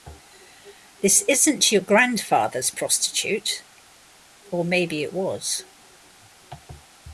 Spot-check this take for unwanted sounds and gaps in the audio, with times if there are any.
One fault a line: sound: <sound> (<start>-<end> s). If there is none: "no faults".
no faults